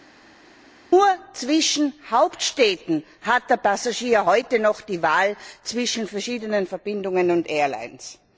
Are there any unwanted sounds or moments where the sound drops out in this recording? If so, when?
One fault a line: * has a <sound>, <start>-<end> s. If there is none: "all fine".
all fine